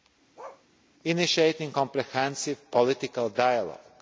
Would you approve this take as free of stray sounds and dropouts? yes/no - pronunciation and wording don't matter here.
no